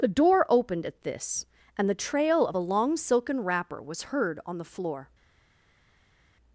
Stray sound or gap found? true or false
false